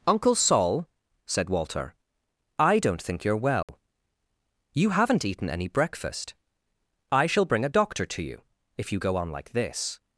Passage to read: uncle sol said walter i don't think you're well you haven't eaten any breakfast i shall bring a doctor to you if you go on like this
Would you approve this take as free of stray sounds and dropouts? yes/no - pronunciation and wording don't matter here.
no